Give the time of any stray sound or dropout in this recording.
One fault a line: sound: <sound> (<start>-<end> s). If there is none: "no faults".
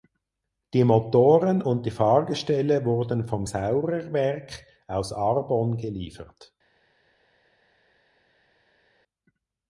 no faults